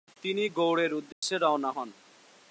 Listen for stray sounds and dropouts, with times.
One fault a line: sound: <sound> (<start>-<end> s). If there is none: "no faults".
sound: dropout (1.1-1.2 s)